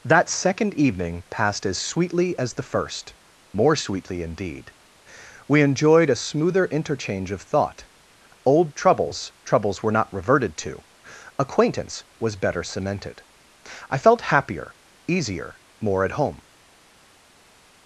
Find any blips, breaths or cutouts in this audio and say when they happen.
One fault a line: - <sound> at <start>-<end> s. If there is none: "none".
none